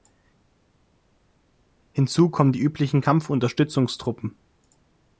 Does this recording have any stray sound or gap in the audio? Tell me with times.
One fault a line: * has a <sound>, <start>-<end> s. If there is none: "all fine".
all fine